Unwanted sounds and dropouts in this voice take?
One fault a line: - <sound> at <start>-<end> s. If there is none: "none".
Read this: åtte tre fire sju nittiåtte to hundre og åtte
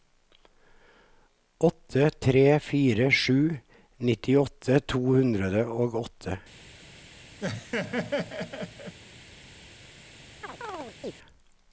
- laugh at 7.4-9.0 s
- chirp at 10.4-11.1 s